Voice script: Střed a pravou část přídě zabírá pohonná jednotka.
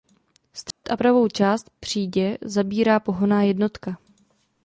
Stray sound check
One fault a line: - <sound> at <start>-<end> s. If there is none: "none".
- dropout at 0.7-0.8 s